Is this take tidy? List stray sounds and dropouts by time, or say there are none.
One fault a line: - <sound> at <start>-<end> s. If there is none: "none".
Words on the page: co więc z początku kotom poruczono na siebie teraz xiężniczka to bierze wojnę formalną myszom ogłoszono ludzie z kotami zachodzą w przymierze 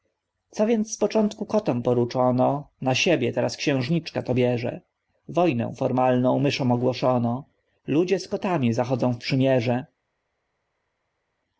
none